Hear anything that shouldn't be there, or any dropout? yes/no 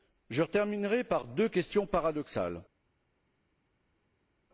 no